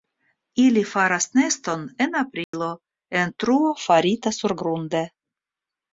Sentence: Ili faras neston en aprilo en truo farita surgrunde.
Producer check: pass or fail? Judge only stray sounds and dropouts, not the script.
fail